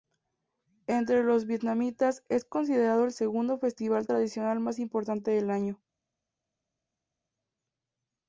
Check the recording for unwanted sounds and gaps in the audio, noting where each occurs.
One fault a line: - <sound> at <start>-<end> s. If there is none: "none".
none